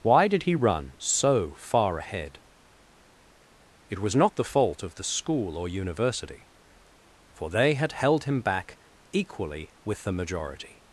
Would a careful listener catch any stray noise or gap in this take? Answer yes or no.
no